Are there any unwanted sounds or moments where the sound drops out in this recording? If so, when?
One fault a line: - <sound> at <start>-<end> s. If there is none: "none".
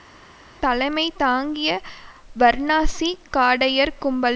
none